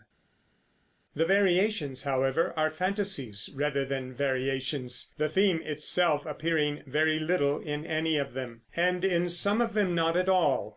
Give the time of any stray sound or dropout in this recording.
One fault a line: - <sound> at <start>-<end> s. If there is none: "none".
none